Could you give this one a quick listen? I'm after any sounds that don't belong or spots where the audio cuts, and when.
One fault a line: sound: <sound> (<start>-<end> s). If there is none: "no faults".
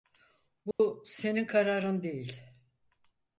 sound: dropout (0.7-0.8 s)